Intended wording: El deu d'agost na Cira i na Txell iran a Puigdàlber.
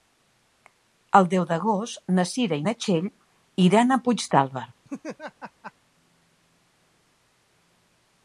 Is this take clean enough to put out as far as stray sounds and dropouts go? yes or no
no